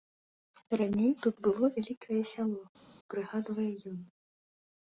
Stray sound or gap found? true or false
false